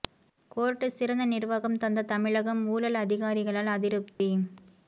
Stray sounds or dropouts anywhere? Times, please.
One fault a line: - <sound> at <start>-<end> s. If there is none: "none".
- dropout at 4.1-4.2 s